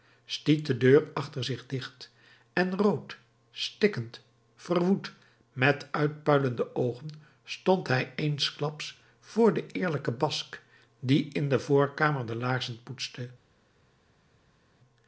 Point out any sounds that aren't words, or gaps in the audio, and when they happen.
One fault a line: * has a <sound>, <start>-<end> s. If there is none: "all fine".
all fine